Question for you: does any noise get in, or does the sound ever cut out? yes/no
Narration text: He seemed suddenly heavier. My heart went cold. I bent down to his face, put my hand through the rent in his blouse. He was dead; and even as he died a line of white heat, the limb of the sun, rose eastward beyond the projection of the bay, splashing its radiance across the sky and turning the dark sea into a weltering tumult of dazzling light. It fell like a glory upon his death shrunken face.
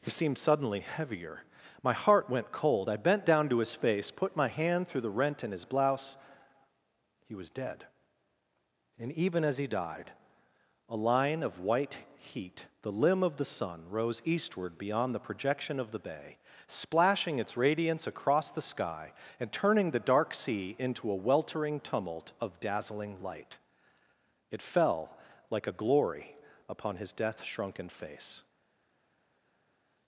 no